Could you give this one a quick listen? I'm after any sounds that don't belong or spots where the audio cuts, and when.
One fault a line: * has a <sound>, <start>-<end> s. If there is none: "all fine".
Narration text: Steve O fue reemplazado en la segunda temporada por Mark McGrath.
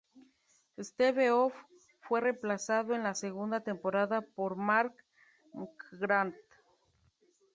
all fine